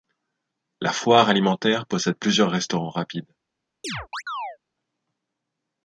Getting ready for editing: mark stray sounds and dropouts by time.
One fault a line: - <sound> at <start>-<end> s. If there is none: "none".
- chirp at 3.8-4.6 s